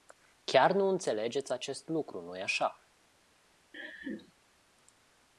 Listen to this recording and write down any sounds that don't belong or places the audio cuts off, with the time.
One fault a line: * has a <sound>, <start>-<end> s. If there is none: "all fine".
* has a laugh, 3.7-4.3 s